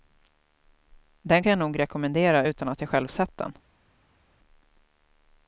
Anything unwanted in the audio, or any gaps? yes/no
no